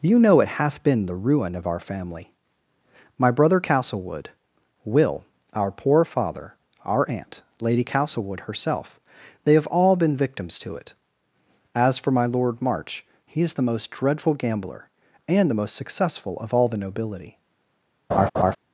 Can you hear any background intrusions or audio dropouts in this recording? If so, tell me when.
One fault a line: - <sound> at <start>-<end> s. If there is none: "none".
- laugh at 18.1-18.6 s